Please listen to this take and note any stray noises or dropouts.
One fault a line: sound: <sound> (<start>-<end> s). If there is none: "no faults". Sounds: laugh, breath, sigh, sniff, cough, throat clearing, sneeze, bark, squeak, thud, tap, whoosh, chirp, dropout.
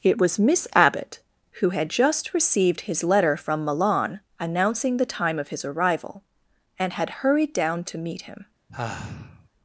sound: sigh (8.7-9.5 s)